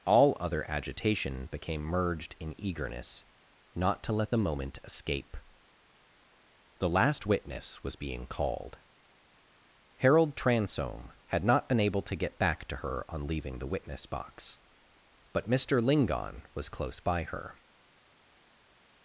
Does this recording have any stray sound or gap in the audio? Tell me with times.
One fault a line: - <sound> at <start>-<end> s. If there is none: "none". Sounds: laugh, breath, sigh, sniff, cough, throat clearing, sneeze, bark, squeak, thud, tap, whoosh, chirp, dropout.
none